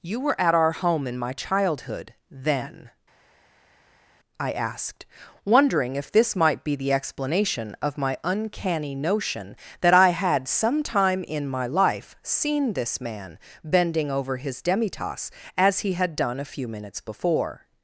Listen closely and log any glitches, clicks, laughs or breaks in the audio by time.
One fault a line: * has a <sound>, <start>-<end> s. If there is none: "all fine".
all fine